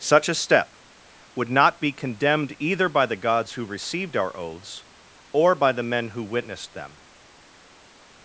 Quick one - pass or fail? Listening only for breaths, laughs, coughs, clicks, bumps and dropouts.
pass